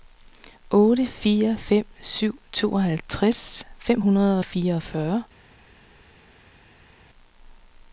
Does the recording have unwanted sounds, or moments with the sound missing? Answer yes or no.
no